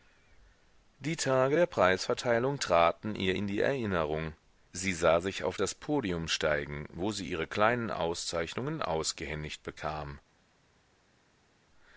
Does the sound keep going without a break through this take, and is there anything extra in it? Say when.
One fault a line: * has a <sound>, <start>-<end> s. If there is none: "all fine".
all fine